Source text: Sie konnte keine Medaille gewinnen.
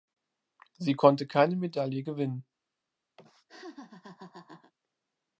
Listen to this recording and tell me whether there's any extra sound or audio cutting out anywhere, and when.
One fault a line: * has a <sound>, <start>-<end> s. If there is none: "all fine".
* has a laugh, 3.2-4.7 s